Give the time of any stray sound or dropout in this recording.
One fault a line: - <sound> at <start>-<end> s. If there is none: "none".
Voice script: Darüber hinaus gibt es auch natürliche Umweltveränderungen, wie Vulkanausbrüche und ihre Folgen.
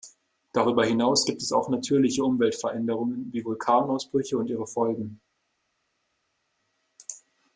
none